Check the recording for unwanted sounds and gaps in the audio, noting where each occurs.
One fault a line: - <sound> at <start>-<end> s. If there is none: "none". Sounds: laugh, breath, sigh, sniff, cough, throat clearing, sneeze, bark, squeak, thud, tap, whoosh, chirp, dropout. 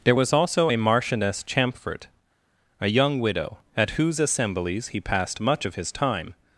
none